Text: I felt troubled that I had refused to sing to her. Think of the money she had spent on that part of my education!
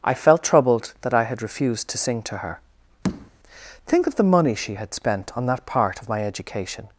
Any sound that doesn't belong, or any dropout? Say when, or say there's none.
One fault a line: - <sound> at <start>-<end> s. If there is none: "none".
- tap at 3.0-3.3 s